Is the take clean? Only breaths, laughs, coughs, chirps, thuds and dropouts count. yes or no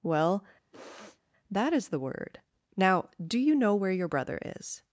no